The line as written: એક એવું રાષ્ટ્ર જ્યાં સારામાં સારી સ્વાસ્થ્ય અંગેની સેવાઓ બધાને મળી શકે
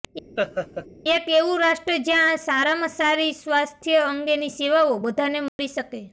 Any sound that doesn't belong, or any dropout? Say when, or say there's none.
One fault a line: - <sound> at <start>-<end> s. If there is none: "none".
- laugh at 0.4-0.9 s
- dropout at 5.5-5.6 s